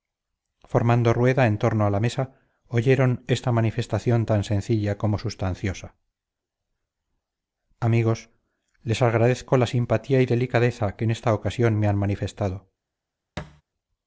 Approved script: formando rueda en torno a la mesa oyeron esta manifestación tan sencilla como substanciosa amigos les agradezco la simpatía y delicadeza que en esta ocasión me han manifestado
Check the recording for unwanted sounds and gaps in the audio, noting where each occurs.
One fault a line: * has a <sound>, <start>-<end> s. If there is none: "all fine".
* has a thud, 13.4-13.6 s